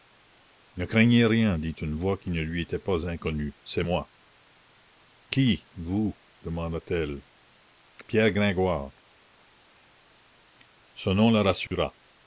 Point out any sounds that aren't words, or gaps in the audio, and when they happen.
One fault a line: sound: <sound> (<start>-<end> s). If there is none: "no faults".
sound: dropout (11.7-11.7 s)